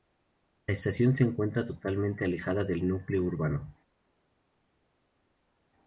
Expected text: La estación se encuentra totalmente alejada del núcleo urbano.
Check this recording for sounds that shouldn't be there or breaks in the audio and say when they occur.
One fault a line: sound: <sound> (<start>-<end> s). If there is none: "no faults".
no faults